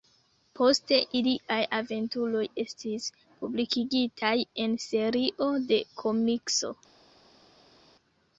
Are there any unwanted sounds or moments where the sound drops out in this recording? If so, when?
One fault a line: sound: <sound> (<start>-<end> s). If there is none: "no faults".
no faults